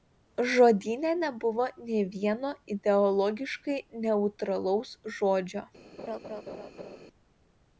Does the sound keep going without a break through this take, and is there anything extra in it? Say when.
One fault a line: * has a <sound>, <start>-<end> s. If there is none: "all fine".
* has a laugh, 6.0-7.0 s